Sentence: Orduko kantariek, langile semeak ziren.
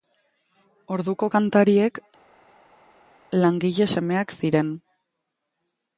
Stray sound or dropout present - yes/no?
no